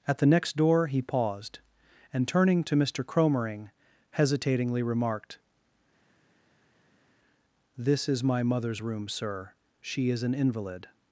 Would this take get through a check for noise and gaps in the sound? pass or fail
pass